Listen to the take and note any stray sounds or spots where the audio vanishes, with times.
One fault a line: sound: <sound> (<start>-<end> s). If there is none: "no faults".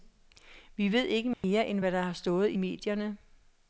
sound: dropout (1.3-1.4 s)